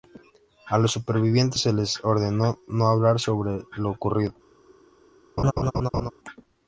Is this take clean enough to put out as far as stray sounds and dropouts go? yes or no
no